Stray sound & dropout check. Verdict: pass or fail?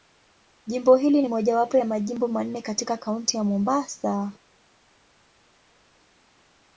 pass